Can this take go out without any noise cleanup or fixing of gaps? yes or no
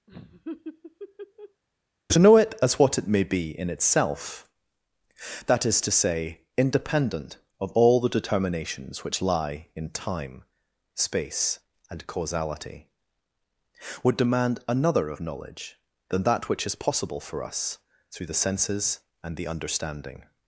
no